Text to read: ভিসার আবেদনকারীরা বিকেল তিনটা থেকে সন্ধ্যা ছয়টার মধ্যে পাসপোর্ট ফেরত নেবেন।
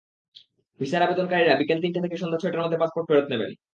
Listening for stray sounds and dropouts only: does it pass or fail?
pass